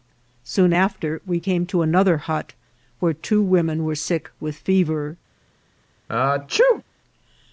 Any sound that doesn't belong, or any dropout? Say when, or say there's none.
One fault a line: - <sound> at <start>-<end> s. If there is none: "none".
- sneeze at 6.1-6.8 s